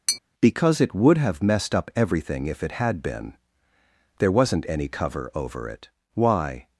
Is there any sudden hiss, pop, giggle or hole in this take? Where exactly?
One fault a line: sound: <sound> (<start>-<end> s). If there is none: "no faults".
sound: tap (0.1-0.2 s)